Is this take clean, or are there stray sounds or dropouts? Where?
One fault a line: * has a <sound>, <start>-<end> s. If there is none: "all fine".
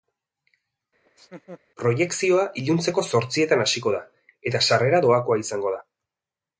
* has a laugh, 1.1-1.6 s